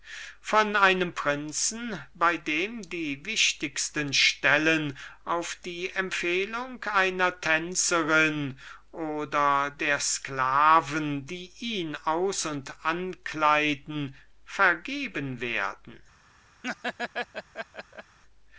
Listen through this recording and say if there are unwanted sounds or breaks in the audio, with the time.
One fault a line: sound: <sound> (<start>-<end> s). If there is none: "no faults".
sound: laugh (16.6-18.2 s)